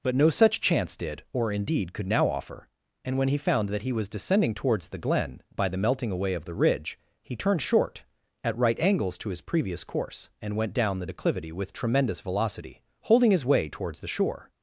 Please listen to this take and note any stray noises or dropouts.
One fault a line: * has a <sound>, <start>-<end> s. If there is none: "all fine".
all fine